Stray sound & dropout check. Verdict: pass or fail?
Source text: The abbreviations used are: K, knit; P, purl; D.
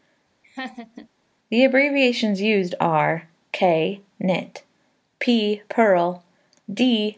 fail